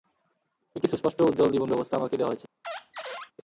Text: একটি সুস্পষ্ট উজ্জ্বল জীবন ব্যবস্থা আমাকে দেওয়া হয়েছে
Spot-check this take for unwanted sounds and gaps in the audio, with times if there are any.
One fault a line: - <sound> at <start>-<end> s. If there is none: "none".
- squeak at 2.6-3.3 s